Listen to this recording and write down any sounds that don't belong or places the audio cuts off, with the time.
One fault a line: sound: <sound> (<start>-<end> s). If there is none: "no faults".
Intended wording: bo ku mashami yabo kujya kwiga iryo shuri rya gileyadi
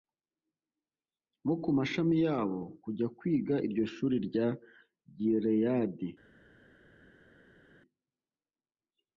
no faults